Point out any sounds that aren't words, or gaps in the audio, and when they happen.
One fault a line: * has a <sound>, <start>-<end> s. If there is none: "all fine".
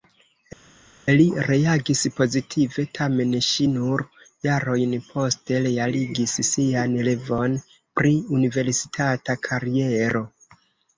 all fine